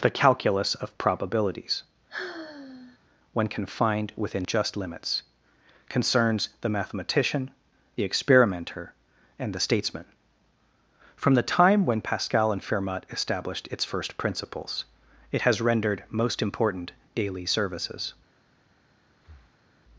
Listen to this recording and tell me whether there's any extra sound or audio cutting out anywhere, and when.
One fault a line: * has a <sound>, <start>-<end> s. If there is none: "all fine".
* has a sigh, 2.1-3.0 s
* has a breath, 19.2-19.7 s